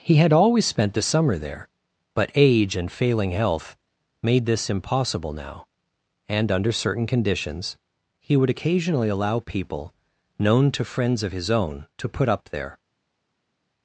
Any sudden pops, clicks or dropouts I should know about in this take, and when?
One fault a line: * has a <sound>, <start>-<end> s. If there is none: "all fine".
all fine